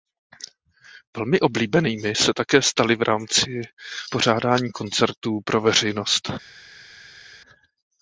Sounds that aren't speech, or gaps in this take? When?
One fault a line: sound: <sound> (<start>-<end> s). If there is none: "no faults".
no faults